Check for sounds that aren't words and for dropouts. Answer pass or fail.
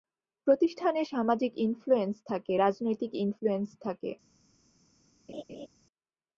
fail